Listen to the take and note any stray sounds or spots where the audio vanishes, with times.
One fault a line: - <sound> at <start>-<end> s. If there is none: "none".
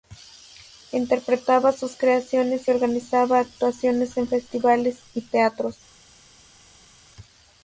none